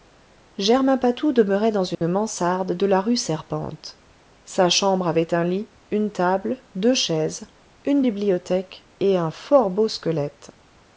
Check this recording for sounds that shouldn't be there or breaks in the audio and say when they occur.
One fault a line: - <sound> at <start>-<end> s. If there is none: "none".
- dropout at 1.9-2.0 s